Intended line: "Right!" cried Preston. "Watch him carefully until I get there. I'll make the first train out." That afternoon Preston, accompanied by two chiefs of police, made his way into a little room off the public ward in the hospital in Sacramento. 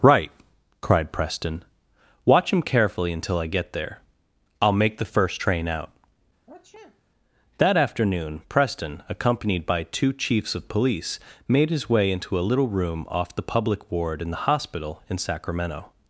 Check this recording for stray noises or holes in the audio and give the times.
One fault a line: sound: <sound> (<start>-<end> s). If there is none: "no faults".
sound: sniff (6.5-7.0 s)